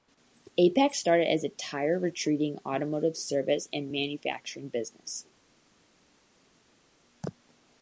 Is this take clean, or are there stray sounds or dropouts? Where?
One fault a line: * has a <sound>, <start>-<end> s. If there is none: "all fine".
all fine